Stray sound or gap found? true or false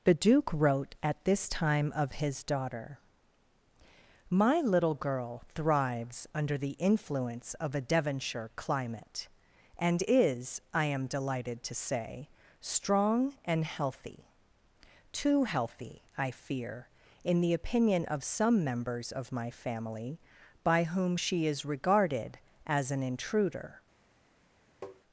true